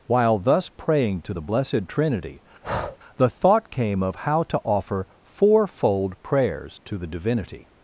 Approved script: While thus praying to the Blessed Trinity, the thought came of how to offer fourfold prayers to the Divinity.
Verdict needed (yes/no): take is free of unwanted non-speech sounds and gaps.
no